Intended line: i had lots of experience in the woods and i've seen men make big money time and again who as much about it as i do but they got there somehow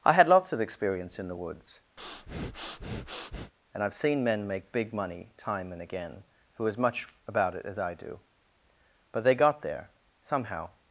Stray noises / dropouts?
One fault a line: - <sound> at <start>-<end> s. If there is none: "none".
- breath at 2.0-3.5 s